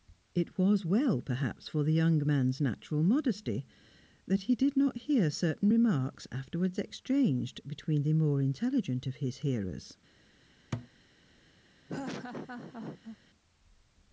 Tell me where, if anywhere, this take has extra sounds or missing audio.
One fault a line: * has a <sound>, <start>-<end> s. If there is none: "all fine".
* has a thud, 10.7-10.9 s
* has a laugh, 11.9-13.2 s